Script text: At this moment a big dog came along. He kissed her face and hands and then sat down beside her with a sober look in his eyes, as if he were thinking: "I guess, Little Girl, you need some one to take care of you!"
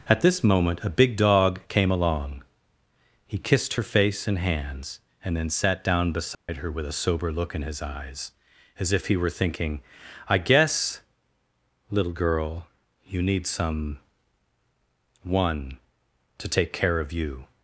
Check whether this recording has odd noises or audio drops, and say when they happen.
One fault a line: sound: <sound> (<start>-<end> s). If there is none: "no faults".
sound: dropout (6.3-6.5 s)